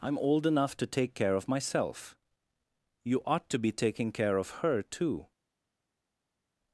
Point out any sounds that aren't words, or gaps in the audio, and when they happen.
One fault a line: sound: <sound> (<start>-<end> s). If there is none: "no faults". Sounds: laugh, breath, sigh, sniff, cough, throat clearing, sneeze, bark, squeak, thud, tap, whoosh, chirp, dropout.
no faults